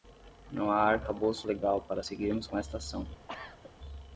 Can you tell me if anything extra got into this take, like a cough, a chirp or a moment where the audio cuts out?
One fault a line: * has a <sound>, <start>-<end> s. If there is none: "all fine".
* has a cough, 3.3-3.7 s